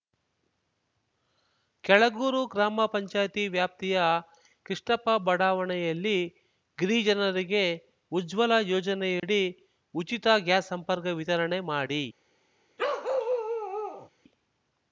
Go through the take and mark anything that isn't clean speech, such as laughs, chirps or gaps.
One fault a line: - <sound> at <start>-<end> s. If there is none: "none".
- dropout at 9.2-9.2 s
- bark at 12.8-14.1 s